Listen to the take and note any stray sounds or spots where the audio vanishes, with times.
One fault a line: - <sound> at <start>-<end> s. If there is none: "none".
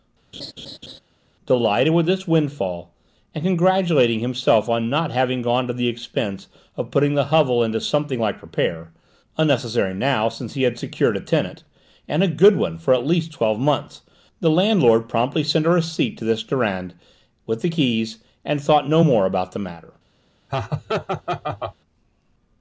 - laugh at 0.3-1.0 s
- laugh at 20.5-21.8 s